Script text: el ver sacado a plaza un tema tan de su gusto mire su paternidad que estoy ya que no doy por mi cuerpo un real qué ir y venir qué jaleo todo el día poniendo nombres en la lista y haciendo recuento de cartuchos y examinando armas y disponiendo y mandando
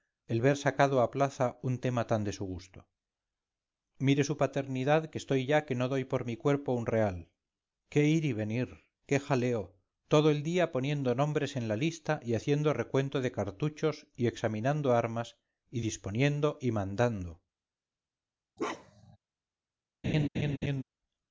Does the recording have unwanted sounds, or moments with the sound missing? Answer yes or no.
yes